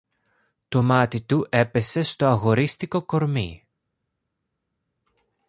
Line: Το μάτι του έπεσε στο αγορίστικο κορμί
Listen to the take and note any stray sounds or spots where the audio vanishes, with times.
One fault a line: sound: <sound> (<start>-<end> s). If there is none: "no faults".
no faults